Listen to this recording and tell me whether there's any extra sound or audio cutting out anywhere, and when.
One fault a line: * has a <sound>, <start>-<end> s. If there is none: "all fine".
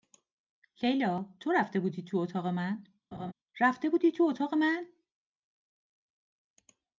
* has a laugh, 3.1-3.3 s